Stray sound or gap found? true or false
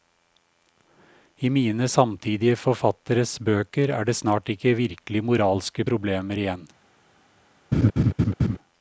true